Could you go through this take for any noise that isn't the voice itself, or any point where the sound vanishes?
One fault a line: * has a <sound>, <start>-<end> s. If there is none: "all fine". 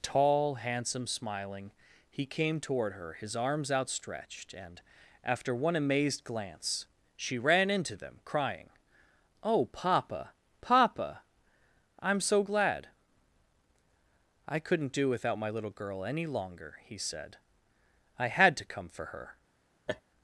* has a laugh, 19.9-20.0 s